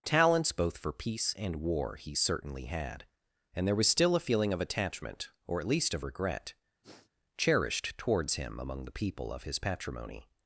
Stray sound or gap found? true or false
true